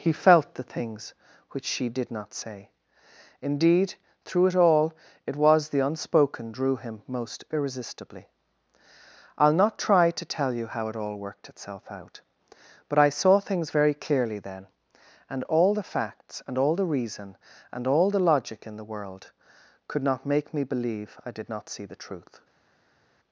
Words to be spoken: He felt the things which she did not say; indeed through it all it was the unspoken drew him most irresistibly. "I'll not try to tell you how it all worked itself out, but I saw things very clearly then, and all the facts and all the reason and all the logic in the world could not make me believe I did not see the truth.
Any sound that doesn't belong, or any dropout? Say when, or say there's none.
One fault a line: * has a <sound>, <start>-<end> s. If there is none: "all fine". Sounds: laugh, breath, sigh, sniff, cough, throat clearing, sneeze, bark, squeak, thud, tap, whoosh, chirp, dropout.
all fine